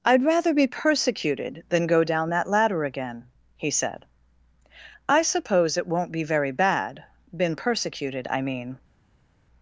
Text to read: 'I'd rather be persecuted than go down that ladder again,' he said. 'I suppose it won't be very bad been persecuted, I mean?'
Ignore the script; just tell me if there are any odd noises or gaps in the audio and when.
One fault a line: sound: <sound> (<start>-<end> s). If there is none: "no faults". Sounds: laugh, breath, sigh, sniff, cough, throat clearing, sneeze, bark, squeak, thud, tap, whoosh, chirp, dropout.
no faults